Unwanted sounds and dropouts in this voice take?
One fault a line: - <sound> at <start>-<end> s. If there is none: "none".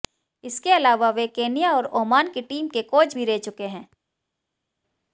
none